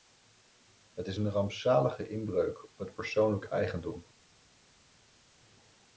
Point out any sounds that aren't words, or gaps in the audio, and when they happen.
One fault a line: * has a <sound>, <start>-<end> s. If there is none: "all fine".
all fine